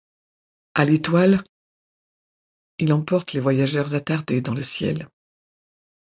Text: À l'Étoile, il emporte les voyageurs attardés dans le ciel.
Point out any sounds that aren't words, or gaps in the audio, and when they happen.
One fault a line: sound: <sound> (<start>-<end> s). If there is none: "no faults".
no faults